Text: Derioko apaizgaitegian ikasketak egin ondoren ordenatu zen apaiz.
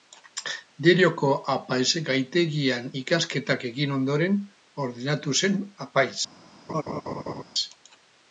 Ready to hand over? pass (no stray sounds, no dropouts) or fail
fail